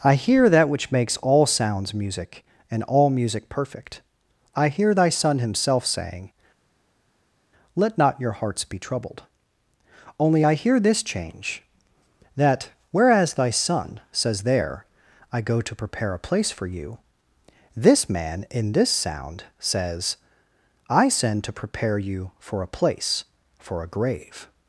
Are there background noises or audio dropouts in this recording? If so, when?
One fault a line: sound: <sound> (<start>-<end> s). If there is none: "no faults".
no faults